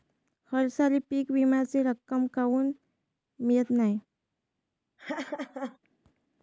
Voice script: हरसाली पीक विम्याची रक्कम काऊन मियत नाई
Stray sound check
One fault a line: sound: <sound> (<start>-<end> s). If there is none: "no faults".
sound: laugh (5.0-5.8 s)